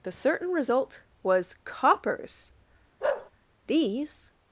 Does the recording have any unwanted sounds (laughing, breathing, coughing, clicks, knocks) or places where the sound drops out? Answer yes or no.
yes